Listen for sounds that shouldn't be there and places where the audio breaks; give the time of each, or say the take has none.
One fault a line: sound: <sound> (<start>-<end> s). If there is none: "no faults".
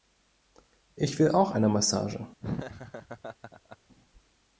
sound: laugh (2.4-3.8 s)